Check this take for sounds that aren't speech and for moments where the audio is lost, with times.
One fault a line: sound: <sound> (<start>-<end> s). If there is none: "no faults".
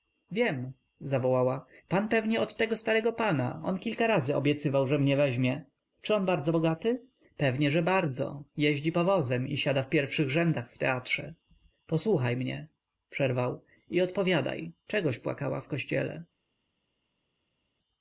no faults